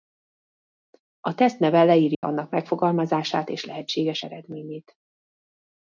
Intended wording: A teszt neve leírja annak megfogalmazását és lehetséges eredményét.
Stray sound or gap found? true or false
true